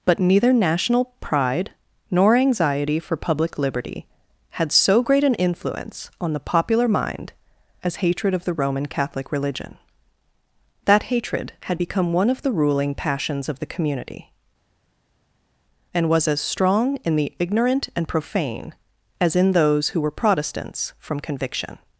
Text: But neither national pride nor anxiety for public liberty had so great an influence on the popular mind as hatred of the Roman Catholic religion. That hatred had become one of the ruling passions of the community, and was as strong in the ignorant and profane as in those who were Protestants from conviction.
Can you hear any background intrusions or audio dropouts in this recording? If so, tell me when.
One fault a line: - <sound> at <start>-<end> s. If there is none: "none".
none